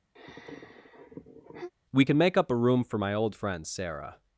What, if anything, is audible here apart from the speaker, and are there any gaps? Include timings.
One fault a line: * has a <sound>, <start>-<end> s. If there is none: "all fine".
* has a sigh, 0.2-1.7 s